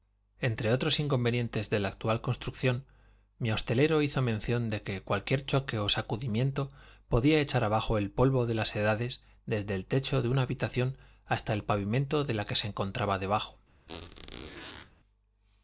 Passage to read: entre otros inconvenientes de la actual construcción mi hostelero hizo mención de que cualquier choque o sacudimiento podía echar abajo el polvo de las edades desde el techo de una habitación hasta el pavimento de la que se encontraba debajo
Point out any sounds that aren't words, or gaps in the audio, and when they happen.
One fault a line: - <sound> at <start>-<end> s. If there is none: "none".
- squeak at 13.9-14.9 s